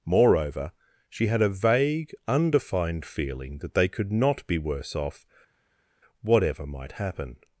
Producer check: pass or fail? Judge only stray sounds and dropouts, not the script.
pass